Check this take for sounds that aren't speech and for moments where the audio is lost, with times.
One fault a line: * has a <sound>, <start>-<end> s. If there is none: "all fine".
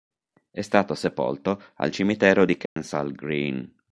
* has a dropout, 2.7-2.8 s